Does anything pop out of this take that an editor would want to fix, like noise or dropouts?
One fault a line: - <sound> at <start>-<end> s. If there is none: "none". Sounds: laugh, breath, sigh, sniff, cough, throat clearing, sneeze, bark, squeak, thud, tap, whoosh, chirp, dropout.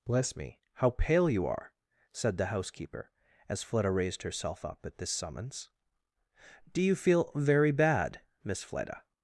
none